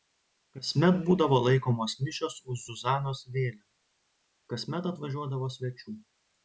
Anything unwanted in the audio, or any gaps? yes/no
no